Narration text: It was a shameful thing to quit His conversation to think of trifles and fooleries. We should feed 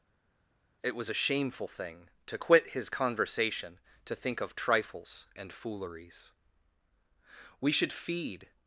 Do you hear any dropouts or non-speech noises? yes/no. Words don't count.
no